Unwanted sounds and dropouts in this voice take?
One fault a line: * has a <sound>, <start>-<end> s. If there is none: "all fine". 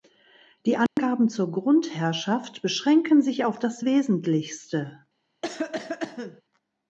* has a dropout, 0.9-1.0 s
* has a cough, 5.4-6.4 s